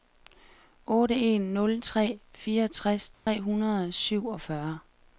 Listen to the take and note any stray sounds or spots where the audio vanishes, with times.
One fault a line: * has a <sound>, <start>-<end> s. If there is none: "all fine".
* has a dropout, 3.1-3.3 s